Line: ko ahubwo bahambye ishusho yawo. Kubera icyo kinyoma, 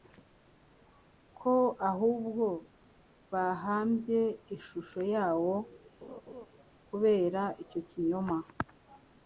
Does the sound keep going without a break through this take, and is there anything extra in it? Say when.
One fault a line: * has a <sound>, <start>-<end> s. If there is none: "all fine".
* has a laugh, 6.0-6.5 s